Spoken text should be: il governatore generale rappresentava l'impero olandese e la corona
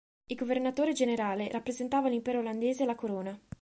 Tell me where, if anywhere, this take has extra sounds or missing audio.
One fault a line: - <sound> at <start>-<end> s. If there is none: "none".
none